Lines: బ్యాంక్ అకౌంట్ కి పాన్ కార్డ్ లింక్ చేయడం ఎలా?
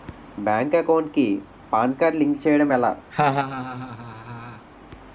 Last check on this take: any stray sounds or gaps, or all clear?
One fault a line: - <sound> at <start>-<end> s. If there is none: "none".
- laugh at 3.1-4.7 s